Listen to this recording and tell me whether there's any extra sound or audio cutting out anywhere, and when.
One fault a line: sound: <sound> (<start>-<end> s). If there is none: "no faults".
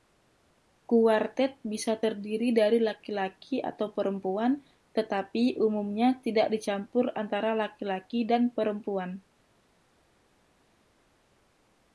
no faults